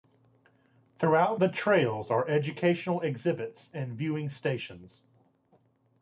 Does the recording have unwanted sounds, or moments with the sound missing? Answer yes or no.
no